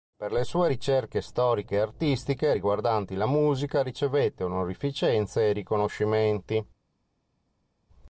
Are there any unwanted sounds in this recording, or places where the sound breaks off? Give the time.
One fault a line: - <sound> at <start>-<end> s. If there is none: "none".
none